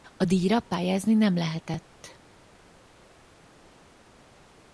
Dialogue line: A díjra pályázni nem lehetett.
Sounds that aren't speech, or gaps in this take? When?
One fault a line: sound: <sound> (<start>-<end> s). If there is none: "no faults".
no faults